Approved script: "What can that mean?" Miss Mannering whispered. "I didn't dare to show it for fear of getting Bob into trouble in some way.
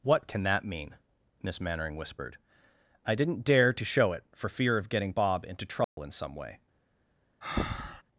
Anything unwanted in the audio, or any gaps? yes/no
yes